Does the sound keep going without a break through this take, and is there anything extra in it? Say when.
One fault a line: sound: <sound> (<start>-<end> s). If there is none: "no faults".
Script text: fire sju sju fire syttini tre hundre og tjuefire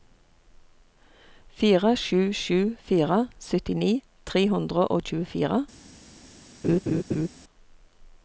sound: laugh (6.6-7.3 s)